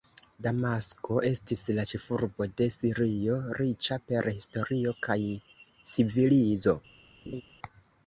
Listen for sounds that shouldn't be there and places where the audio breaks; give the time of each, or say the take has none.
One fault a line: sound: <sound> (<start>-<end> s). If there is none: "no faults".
sound: laugh (7.3-7.4 s)